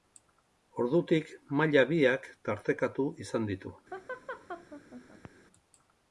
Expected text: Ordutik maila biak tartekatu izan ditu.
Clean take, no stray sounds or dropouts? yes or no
no